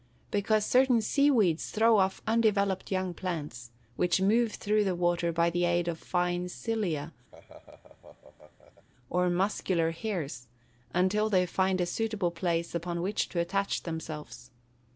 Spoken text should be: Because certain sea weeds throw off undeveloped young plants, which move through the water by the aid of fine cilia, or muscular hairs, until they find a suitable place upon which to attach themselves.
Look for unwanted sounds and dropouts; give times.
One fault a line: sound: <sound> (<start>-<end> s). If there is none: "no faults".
sound: laugh (7.3-8.9 s)